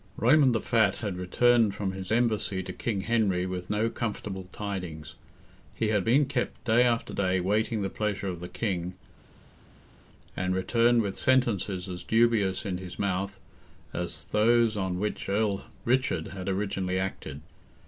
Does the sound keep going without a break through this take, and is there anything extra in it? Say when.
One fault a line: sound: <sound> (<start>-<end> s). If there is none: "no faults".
no faults